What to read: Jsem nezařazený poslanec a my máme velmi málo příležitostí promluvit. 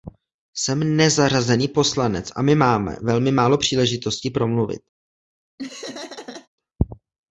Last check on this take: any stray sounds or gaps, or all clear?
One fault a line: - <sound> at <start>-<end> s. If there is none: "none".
- laugh at 5.6-6.5 s